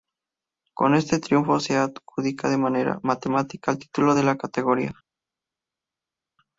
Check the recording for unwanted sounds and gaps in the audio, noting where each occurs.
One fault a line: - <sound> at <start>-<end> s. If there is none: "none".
none